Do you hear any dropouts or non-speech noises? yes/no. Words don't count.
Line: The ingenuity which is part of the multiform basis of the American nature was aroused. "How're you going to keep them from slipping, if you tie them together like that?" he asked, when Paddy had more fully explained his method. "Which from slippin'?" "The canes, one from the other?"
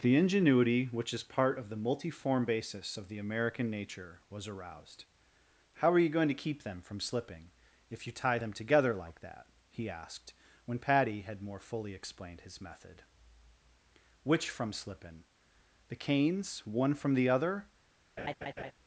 yes